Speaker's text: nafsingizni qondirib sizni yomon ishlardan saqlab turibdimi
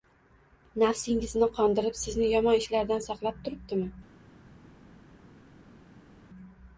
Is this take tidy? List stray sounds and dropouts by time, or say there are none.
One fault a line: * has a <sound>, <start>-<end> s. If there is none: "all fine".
all fine